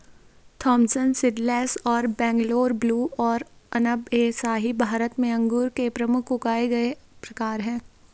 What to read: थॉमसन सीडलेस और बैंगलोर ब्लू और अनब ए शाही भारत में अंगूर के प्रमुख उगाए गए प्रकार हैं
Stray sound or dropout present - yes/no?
no